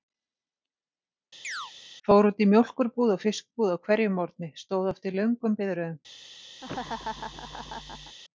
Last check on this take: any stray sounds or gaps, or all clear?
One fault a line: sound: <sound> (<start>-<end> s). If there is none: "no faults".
sound: chirp (1.4-1.7 s)
sound: laugh (6.6-8.2 s)